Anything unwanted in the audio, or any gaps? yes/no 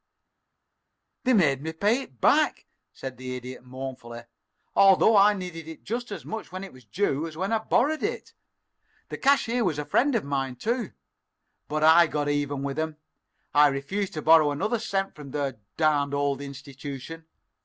no